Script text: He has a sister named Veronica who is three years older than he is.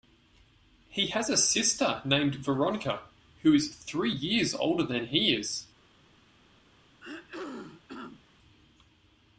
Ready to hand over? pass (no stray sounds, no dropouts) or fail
fail